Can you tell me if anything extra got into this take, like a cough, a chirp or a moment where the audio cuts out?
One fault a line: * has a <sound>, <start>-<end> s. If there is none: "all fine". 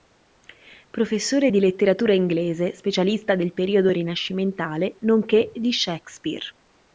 all fine